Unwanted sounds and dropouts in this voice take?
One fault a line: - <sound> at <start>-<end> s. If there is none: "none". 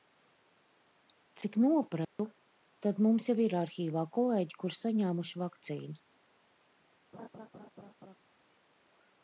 - dropout at 2.0-2.2 s
- laugh at 7.1-8.2 s